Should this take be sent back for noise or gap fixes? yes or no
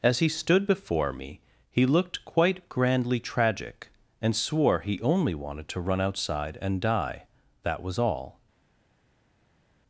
no